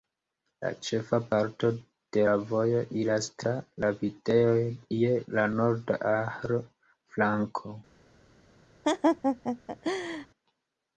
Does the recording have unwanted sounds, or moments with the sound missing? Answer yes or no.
yes